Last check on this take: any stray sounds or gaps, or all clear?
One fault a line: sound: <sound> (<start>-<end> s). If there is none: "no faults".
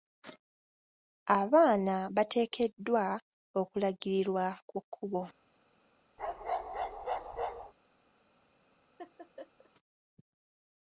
sound: bark (6.2-7.7 s)
sound: laugh (9.0-9.7 s)